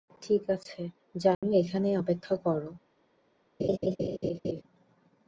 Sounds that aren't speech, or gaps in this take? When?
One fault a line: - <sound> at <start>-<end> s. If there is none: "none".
- dropout at 1.3-1.4 s
- laugh at 3.6-4.6 s